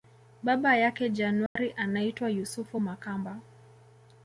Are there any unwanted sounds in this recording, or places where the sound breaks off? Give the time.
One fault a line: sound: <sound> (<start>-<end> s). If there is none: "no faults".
sound: dropout (1.5-1.6 s)